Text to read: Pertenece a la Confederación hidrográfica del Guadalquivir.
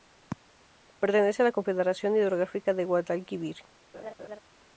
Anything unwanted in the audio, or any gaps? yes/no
yes